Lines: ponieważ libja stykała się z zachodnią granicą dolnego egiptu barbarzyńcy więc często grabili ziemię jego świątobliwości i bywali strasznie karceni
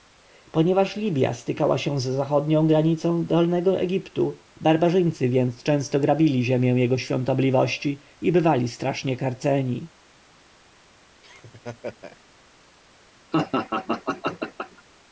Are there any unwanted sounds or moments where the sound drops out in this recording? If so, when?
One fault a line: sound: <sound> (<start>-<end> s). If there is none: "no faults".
sound: laugh (11.2-12.2 s)
sound: laugh (13.3-14.8 s)